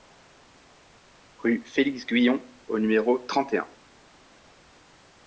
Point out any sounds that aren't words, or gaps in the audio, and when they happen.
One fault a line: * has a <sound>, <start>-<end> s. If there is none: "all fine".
all fine